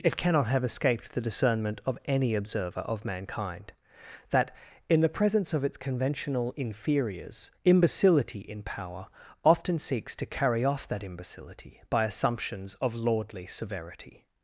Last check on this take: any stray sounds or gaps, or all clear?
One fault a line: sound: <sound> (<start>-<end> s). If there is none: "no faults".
no faults